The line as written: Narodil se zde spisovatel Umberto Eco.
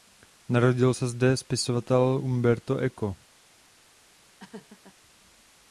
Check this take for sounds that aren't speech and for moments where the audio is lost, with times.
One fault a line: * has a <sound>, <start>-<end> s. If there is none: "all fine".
* has a laugh, 4.4-5.0 s